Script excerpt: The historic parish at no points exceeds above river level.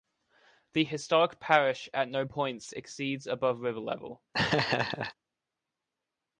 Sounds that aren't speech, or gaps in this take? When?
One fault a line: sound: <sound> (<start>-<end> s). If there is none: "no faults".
sound: laugh (4.3-5.1 s)